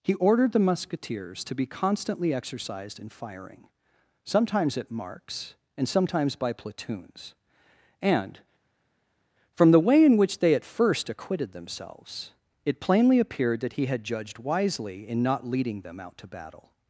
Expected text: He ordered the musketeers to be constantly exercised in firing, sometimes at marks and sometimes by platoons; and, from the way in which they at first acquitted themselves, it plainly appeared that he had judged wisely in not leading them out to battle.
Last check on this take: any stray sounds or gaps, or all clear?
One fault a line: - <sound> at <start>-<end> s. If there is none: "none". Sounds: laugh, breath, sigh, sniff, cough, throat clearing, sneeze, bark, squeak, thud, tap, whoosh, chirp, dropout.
none